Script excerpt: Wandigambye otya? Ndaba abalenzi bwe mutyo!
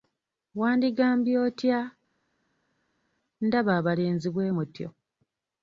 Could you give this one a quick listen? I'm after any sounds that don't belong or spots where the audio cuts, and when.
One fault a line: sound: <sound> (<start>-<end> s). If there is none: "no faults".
no faults